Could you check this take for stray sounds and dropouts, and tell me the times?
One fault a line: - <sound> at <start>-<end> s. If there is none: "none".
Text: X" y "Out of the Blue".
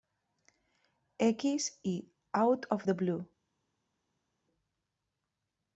none